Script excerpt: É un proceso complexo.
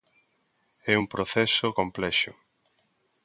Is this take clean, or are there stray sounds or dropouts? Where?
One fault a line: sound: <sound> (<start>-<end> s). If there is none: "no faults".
no faults